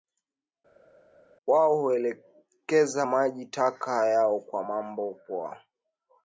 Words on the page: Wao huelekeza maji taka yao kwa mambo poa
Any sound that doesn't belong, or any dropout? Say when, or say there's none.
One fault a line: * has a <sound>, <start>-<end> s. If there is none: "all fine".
all fine